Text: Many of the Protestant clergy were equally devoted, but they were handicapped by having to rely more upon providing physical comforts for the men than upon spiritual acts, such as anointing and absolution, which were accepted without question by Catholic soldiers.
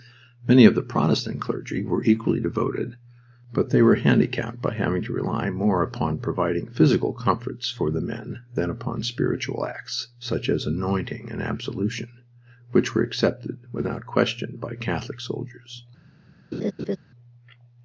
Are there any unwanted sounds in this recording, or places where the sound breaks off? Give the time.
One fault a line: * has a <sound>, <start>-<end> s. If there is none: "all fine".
* has a laugh, 16.5-17.0 s